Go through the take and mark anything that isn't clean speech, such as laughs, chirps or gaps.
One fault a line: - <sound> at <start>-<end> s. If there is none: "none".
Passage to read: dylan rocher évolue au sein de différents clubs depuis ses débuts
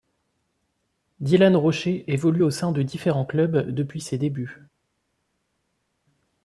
none